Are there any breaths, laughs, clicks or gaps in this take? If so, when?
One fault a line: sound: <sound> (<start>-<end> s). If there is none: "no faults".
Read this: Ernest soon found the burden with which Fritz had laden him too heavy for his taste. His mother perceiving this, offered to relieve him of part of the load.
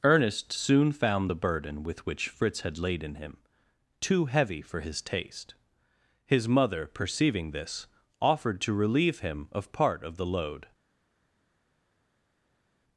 no faults